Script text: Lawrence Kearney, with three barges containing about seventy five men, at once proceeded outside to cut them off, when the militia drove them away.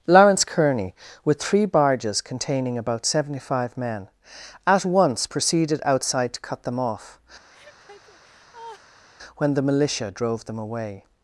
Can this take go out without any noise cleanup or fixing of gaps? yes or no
no